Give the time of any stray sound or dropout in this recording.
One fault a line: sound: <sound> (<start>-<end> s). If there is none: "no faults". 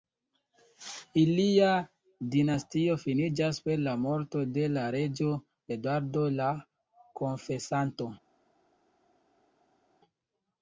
no faults